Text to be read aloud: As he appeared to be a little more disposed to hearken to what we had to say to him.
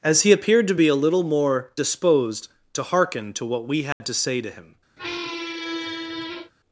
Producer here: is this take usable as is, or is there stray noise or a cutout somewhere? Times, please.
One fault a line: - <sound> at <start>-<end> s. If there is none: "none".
- dropout at 3.9-4.0 s
- squeak at 5.0-6.5 s